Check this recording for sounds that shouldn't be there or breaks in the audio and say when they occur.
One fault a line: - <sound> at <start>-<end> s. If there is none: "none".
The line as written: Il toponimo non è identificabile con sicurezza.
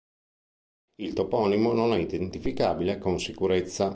none